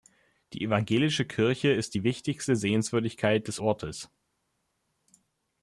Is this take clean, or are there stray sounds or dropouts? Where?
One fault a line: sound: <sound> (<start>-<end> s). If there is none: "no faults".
no faults